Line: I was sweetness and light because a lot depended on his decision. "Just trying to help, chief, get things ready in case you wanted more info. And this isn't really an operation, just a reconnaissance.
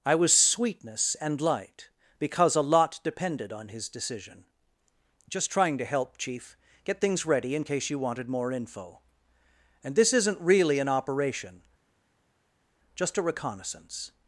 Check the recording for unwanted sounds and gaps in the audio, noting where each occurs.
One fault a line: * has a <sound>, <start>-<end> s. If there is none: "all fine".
all fine